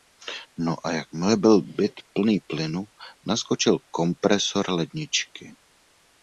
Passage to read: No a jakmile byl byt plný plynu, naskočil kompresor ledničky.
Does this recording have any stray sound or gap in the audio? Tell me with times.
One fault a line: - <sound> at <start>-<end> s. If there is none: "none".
none